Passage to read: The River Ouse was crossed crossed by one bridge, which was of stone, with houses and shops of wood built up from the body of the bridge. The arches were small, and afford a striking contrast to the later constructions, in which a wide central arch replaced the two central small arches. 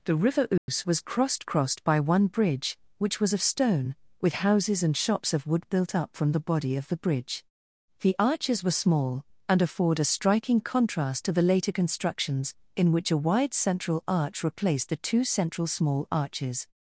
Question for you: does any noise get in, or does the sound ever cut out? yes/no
yes